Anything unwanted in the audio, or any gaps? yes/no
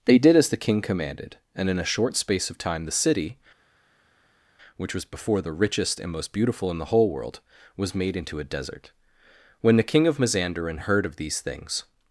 no